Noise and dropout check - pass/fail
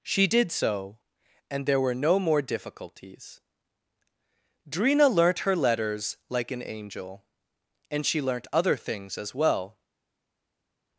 pass